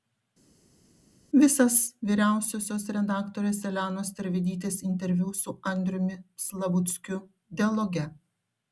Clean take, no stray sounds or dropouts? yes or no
yes